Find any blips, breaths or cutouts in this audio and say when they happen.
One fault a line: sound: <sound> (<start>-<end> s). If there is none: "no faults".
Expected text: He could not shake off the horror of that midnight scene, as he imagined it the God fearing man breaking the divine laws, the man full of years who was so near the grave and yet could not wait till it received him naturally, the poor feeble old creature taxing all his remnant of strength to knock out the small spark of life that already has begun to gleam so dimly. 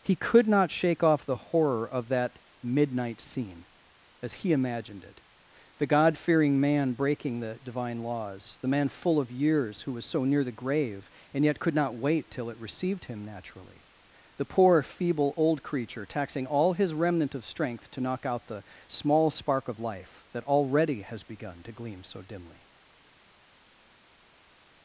no faults